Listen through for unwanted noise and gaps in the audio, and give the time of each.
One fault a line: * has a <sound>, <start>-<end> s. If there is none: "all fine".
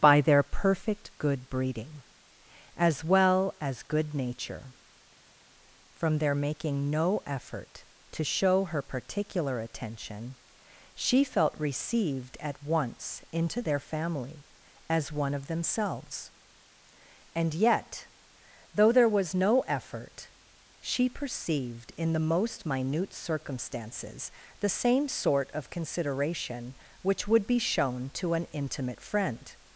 all fine